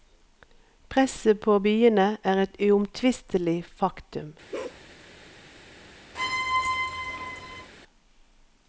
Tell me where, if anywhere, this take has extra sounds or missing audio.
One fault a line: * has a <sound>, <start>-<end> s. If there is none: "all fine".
* has a bark, 4.5-4.8 s
* has a squeak, 6.1-7.7 s